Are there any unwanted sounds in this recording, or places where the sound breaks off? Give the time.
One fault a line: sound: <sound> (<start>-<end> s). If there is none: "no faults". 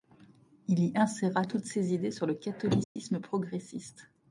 sound: dropout (2.8-3.0 s)